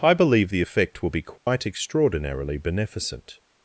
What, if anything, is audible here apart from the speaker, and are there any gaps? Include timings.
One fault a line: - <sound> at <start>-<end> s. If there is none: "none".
- dropout at 1.4-1.5 s